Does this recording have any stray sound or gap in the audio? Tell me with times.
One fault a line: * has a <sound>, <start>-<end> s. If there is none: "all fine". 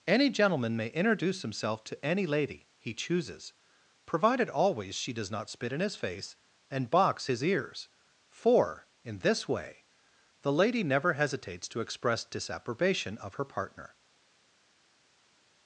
all fine